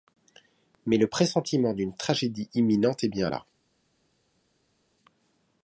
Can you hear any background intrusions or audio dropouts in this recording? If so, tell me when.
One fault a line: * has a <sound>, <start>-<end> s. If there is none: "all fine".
all fine